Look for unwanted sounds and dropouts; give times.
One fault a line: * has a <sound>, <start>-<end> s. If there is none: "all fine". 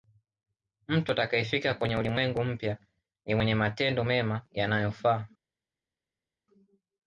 all fine